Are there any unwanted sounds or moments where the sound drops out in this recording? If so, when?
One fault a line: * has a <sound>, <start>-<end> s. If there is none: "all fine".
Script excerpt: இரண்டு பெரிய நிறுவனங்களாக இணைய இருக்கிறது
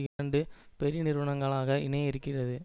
* has a dropout, 0.1-0.2 s